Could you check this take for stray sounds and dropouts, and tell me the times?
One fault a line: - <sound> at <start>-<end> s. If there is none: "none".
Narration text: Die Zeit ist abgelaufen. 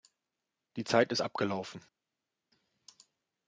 none